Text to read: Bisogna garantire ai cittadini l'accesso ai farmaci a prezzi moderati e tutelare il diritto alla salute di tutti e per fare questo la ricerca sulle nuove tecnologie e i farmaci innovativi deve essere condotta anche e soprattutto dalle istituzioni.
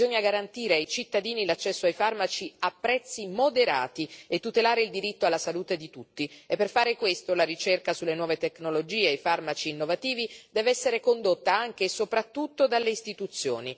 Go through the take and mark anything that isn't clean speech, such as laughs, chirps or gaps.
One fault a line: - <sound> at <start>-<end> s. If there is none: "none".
none